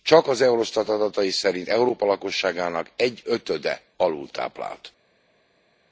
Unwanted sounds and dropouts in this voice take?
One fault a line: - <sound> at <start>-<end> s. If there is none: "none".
none